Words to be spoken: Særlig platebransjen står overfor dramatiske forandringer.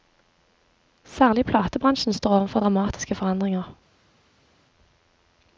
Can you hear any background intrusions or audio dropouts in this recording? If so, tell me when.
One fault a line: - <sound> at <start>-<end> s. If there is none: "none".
none